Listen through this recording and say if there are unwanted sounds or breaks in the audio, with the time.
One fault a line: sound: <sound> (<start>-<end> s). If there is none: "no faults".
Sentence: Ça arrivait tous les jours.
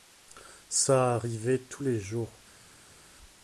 no faults